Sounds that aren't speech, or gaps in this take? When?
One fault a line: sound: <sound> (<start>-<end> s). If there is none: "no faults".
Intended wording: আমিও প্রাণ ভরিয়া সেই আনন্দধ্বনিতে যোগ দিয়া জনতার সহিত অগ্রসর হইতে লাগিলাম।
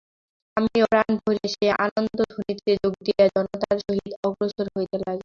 no faults